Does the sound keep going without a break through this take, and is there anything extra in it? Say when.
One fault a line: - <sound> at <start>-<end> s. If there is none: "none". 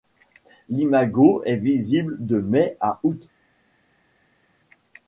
none